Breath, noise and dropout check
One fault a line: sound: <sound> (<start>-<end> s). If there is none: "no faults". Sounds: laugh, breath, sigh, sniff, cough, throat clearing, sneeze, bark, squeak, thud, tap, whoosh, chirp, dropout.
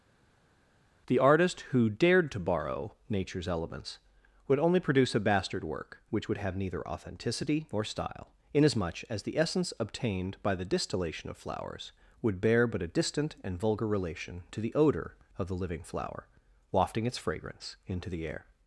no faults